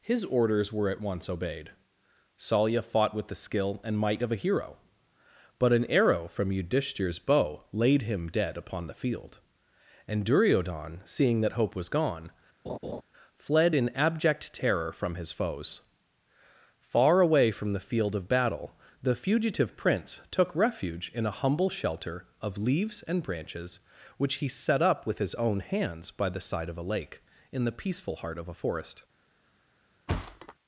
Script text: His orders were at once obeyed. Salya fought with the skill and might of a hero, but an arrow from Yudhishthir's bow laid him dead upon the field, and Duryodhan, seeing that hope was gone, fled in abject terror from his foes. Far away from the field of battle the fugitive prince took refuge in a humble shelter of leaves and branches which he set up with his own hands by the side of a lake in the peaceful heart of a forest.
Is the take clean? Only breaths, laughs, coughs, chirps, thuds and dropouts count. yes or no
no